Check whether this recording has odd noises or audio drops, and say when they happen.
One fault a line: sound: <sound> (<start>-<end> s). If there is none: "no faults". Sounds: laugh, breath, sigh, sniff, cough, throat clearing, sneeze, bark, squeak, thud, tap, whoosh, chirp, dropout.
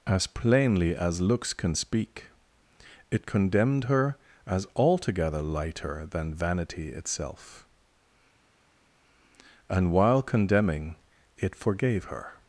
no faults